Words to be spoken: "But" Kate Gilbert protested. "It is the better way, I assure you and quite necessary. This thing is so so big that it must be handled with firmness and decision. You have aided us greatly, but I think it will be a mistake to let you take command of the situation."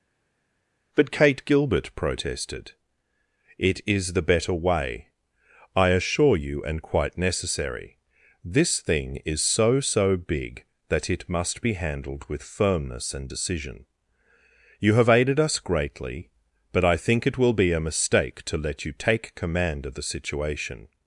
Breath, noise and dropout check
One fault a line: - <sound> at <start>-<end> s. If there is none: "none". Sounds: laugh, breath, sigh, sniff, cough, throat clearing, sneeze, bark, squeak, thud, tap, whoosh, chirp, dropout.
none